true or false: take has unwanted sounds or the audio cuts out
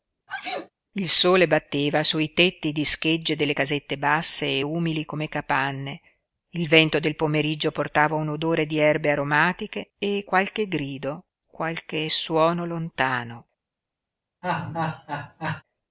true